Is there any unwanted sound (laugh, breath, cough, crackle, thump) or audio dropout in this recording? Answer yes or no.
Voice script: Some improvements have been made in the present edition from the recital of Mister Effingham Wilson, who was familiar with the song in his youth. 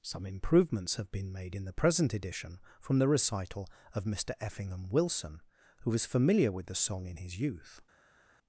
no